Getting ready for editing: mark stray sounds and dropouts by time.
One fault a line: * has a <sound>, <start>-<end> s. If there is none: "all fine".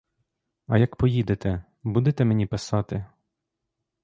all fine